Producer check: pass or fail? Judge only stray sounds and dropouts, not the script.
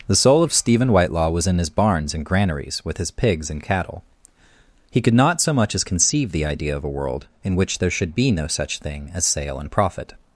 pass